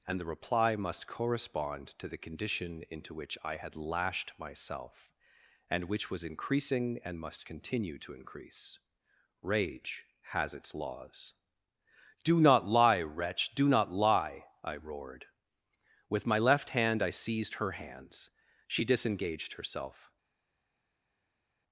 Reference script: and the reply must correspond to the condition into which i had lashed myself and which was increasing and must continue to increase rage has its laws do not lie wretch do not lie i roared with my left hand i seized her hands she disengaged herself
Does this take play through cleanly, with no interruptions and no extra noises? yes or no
yes